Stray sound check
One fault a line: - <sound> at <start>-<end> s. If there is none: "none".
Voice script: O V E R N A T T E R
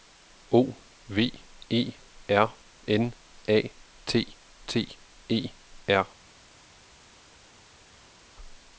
none